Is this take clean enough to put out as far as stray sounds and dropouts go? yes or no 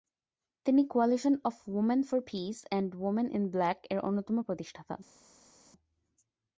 yes